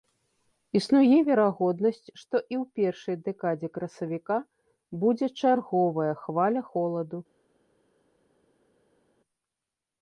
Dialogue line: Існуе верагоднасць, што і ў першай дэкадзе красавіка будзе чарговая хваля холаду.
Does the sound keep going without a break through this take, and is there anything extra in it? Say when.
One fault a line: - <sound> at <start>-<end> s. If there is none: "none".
none